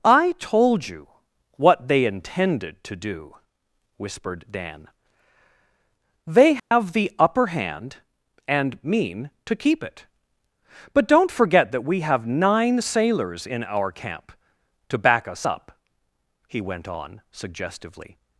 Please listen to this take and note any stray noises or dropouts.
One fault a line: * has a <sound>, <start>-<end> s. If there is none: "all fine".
* has a dropout, 6.6-6.7 s